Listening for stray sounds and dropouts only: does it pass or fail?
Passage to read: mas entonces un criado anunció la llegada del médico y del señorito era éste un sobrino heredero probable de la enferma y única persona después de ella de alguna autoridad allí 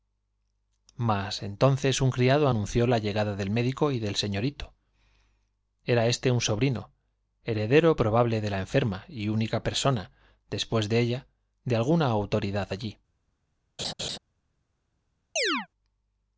fail